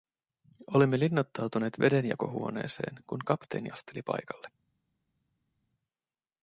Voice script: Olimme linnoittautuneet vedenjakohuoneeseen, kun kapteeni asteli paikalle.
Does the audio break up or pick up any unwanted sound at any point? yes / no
no